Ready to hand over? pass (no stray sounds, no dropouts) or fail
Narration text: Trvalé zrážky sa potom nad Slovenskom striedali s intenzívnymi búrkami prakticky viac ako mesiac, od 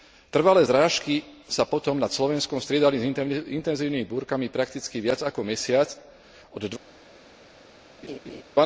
fail